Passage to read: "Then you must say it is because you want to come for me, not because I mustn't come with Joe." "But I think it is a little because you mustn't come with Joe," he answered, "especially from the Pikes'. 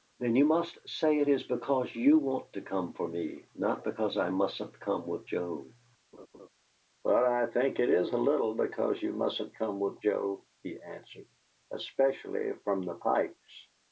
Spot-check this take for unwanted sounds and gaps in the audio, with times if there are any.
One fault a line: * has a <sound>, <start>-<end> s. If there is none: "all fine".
* has a laugh, 6.1-6.5 s